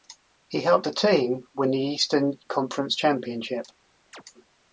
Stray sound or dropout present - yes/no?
yes